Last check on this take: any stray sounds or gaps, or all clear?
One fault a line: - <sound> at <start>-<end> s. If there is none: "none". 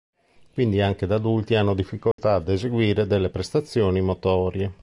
- dropout at 2.1-2.2 s